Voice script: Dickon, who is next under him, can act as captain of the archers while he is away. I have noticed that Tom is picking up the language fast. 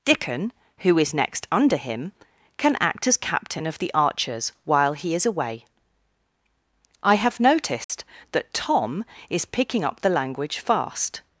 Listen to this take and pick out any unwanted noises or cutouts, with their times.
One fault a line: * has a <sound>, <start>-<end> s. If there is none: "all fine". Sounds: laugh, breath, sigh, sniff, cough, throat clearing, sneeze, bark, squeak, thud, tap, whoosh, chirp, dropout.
* has a dropout, 7.8-7.9 s